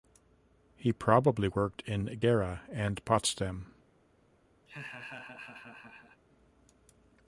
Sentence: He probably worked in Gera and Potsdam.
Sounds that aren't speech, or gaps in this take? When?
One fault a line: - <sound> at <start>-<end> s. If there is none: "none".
- laugh at 4.7-6.2 s